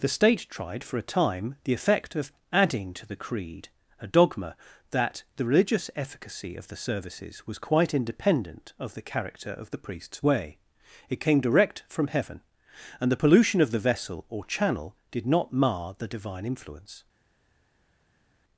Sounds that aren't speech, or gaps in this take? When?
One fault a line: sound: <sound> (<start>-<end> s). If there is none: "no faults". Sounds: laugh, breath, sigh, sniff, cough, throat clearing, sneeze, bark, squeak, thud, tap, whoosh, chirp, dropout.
no faults